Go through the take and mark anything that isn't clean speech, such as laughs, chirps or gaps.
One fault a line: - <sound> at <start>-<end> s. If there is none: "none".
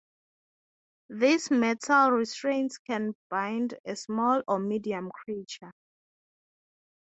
none